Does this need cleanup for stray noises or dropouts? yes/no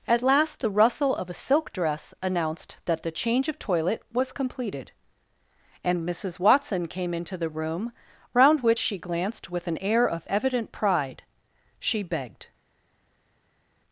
no